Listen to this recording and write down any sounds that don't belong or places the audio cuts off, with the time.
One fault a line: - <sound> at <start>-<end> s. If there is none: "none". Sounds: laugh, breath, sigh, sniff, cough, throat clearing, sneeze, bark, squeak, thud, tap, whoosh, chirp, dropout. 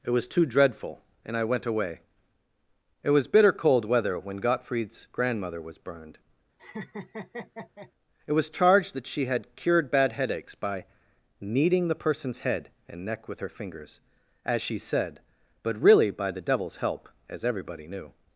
- laugh at 6.6-7.9 s